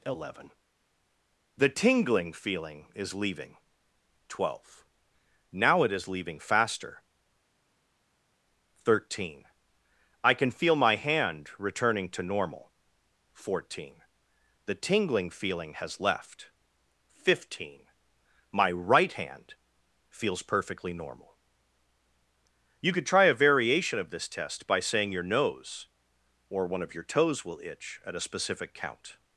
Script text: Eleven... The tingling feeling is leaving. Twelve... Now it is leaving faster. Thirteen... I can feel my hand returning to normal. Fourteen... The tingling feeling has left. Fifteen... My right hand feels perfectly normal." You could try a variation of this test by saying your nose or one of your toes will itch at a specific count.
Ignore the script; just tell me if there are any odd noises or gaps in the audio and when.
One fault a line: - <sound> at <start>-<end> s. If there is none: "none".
none